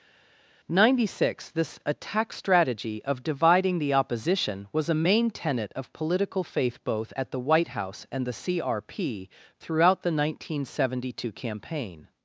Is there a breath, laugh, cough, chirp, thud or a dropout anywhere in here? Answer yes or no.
no